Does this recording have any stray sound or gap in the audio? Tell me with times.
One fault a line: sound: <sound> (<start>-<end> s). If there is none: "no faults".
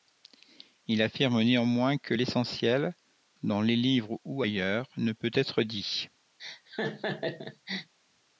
sound: laugh (6.4-7.9 s)